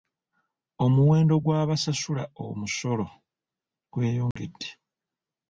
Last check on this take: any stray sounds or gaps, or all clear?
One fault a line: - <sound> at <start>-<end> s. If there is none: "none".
- dropout at 4.3-4.4 s